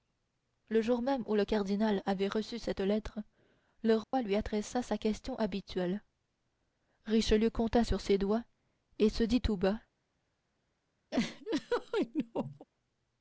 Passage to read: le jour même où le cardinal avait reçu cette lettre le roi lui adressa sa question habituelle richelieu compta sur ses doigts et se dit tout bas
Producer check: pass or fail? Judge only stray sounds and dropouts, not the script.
fail